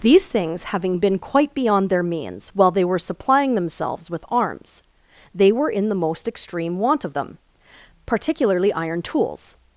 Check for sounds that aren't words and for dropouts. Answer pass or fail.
pass